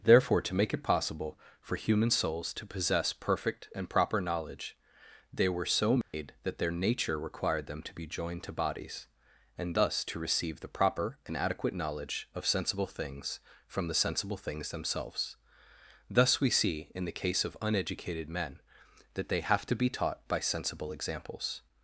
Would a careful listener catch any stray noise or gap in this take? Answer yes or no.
yes